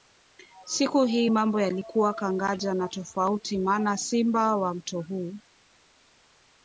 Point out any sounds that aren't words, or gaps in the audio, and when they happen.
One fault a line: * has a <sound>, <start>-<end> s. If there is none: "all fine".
all fine